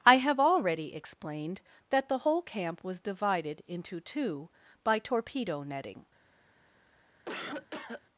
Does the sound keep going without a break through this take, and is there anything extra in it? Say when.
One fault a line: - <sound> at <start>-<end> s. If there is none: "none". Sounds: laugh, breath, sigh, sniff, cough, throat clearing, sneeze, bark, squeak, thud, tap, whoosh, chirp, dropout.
- cough at 7.3-8.0 s